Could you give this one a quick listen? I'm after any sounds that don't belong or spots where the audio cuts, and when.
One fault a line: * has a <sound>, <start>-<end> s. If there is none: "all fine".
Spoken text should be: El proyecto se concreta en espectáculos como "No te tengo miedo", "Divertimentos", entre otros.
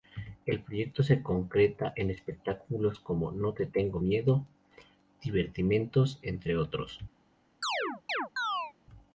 * has a chirp, 7.6-8.7 s